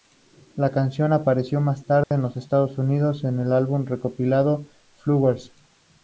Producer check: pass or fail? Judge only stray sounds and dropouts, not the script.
fail